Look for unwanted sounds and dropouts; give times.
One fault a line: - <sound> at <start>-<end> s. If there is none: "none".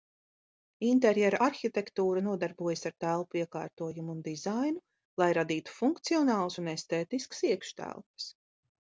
none